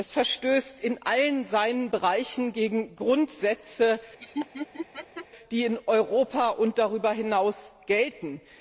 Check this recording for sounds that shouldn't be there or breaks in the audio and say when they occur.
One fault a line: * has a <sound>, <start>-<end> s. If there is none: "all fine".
* has a laugh, 4.2-5.3 s